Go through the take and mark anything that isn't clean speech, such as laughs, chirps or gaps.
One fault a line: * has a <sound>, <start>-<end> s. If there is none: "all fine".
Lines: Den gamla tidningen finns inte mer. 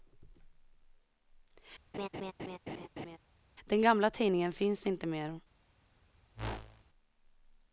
* has a laugh, 1.9-3.2 s
* has a whoosh, 6.3-6.8 s